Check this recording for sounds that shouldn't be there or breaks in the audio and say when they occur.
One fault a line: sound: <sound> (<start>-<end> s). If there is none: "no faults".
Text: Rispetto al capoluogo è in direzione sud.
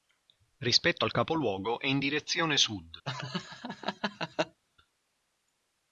sound: laugh (3.0-4.6 s)